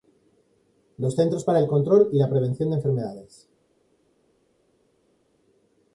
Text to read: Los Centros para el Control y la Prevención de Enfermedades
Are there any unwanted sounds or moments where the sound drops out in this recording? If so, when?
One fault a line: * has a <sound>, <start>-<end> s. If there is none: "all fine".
all fine